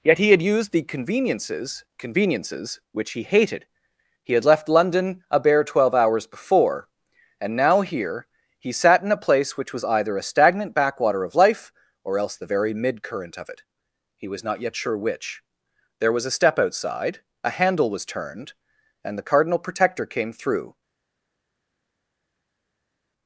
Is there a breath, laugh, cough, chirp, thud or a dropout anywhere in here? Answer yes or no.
no